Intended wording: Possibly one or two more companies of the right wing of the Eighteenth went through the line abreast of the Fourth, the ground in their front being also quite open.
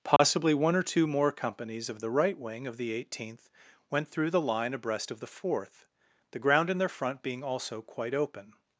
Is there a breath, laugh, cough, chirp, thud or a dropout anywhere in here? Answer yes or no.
yes